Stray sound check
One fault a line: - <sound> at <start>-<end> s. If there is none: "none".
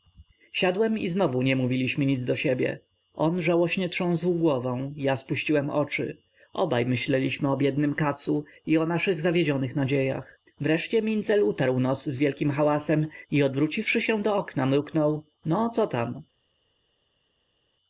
none